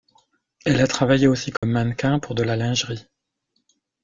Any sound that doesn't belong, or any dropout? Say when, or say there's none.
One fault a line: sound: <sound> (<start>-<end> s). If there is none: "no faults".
sound: dropout (1.6-1.6 s)